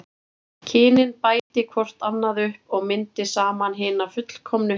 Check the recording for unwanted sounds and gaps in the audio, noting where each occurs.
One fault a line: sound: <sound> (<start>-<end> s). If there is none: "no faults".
sound: dropout (1.4-1.5 s)